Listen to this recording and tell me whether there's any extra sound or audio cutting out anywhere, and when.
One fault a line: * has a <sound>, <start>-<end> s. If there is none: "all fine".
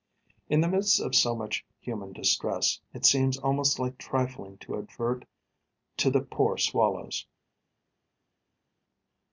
all fine